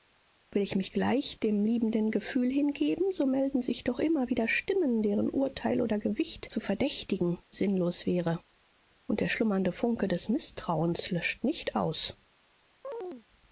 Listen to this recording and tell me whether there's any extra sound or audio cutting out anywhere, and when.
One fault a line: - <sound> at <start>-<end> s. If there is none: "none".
- chirp at 12.8-13.2 s